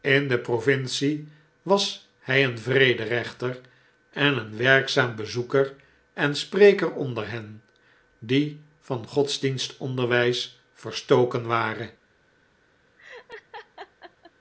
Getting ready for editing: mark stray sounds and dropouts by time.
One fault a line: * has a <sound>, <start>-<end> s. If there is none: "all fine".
* has a laugh, 13.0-14.3 s